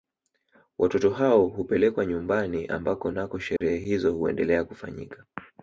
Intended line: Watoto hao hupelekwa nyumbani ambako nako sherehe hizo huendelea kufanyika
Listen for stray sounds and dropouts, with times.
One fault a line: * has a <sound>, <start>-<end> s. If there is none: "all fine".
* has a dropout, 3.6-3.6 s